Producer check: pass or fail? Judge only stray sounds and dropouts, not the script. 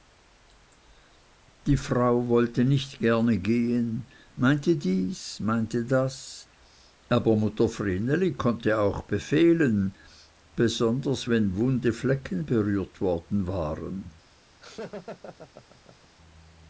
fail